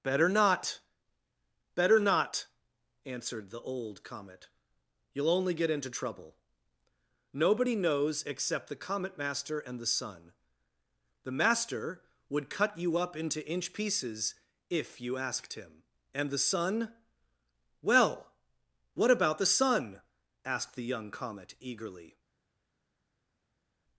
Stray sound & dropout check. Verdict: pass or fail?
pass